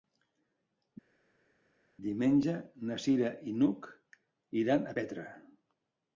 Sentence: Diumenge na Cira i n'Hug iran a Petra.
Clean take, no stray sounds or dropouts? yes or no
yes